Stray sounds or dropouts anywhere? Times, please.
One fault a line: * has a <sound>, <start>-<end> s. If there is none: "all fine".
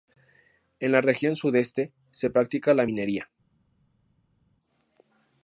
all fine